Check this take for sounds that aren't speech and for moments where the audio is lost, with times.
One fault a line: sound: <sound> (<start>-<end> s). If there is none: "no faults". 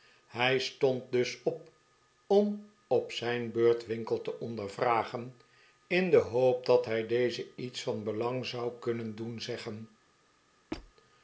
sound: squeak (10.7-10.9 s)